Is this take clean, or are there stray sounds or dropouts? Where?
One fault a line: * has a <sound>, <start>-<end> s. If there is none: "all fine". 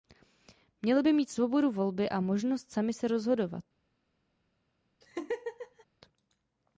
* has a laugh, 5.0-5.9 s